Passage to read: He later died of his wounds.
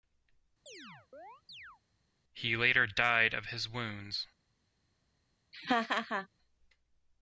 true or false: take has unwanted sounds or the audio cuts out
true